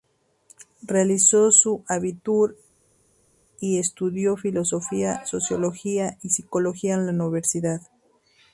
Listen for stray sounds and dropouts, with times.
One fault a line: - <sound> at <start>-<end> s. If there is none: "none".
none